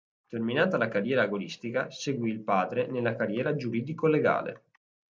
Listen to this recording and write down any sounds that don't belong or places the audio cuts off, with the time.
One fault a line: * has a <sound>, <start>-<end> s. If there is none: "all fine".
all fine